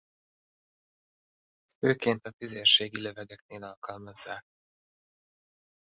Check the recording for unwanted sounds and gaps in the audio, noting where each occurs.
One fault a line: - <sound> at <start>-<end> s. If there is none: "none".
none